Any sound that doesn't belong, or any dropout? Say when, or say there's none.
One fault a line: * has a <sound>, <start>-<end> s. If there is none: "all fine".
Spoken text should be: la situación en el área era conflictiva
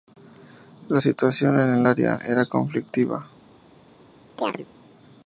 * has a chirp, 4.4-4.7 s